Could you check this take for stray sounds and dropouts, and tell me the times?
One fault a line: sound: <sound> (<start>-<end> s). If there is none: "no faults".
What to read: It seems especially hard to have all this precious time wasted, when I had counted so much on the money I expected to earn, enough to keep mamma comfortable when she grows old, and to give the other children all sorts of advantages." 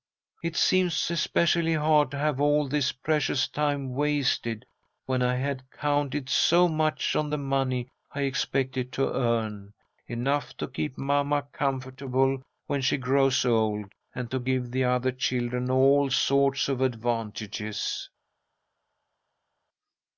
no faults